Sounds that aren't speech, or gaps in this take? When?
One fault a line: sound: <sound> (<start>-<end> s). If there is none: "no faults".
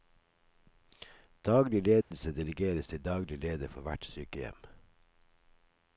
sound: dropout (2.0-2.1 s)